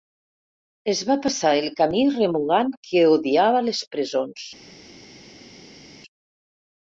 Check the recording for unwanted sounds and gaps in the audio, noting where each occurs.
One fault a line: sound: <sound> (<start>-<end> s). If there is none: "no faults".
no faults